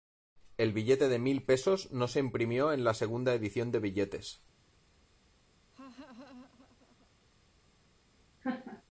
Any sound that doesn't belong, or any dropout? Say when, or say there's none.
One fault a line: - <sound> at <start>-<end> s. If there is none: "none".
- laugh at 5.7-7.1 s
- laugh at 8.4-8.8 s